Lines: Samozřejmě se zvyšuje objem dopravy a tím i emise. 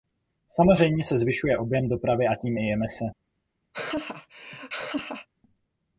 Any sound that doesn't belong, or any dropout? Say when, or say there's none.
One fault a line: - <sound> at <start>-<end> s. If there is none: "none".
- laugh at 3.7-5.3 s